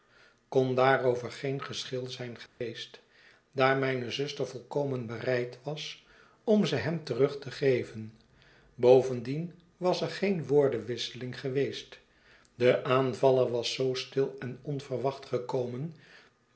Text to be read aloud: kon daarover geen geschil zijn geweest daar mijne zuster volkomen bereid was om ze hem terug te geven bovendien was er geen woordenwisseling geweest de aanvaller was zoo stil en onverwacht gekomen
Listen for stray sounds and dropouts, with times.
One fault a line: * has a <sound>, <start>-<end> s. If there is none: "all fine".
* has a dropout, 2.5-2.6 s